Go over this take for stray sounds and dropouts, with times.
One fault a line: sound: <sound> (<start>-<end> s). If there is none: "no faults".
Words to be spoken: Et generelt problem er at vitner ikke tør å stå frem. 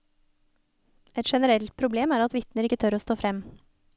no faults